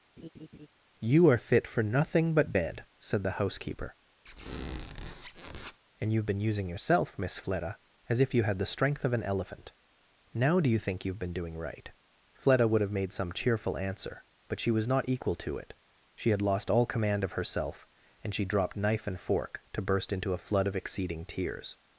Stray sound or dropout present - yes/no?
yes